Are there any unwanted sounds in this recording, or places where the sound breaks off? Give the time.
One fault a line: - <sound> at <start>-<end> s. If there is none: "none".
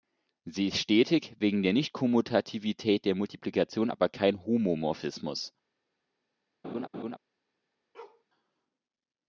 - laugh at 6.6-7.2 s
- bark at 7.9-8.2 s